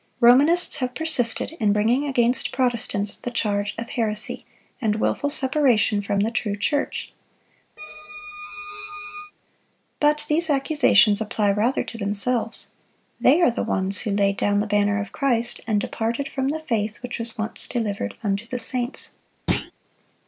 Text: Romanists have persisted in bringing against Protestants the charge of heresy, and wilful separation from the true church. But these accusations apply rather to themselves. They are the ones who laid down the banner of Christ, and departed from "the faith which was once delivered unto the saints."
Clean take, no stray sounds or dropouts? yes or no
no